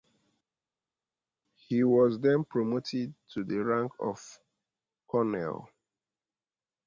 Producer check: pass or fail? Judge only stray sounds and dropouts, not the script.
pass